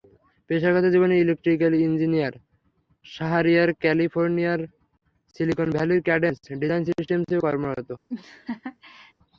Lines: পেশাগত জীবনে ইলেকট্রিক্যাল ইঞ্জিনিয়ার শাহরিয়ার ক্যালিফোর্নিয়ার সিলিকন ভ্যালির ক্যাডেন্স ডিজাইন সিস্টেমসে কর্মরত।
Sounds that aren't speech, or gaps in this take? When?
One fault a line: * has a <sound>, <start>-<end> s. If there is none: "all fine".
* has a laugh, 8.1-9.1 s